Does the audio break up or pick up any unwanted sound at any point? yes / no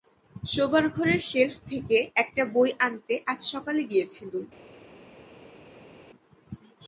no